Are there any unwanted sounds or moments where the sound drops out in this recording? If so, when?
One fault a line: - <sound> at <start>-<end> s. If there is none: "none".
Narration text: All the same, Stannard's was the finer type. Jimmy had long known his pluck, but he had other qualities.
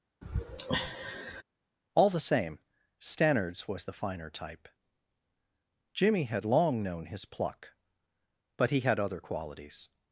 - sigh at 0.2-1.4 s